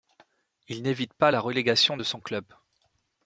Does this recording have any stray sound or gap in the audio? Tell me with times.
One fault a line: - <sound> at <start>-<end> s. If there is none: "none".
none